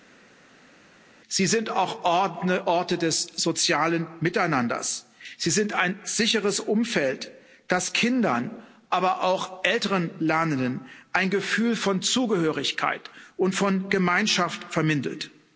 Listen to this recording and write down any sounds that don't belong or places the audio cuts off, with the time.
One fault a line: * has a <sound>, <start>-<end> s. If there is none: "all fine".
all fine